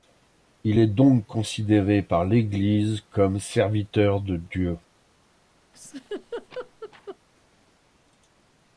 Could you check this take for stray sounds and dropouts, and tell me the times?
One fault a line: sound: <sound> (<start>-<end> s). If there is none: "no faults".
sound: laugh (5.7-7.2 s)